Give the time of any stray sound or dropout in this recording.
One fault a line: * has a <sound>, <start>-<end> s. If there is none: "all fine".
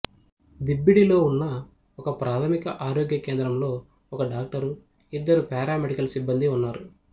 all fine